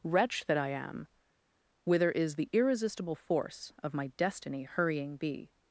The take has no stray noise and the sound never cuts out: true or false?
true